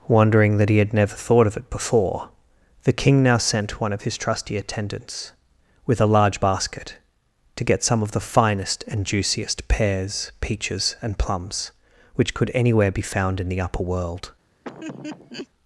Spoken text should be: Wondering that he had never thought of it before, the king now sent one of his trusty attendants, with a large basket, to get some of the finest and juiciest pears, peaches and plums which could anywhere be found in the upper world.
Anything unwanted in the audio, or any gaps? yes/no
yes